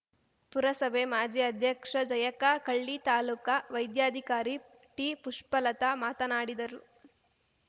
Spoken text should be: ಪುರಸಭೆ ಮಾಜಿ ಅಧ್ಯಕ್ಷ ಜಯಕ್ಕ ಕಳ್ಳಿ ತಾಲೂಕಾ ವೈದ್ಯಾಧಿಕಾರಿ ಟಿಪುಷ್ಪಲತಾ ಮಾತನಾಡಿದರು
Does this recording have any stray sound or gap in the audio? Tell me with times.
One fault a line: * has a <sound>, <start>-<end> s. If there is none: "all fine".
all fine